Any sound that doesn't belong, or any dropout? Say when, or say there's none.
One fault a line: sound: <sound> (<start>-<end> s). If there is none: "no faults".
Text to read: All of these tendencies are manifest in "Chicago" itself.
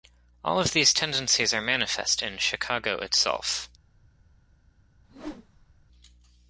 sound: whoosh (5.0-5.9 s)